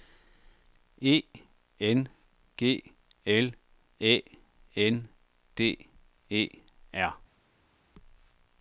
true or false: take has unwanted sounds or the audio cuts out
false